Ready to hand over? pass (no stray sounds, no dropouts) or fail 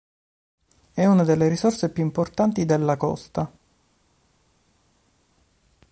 pass